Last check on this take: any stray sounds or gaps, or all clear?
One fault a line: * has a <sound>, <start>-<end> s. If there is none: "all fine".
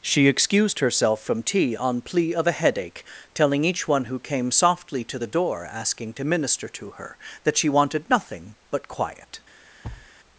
* has a thud, 9.8-10.1 s